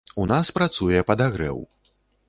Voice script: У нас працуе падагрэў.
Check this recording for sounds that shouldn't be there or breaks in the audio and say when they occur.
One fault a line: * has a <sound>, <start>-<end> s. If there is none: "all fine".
all fine